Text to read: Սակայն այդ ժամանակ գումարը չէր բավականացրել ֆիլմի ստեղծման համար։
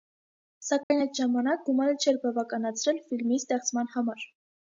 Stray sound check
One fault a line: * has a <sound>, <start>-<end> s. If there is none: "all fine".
* has a dropout, 0.8-0.9 s